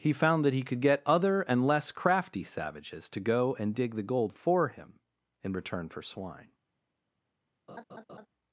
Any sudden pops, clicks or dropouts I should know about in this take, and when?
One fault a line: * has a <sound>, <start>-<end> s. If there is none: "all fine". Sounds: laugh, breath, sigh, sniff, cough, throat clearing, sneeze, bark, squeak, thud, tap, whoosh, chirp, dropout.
* has a laugh, 7.7-8.3 s